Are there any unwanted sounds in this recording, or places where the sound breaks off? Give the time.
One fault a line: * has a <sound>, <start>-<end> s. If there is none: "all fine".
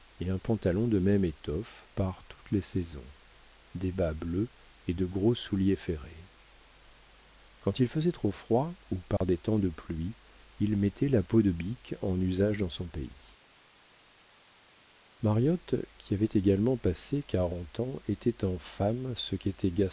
* has a dropout, 9.2-9.2 s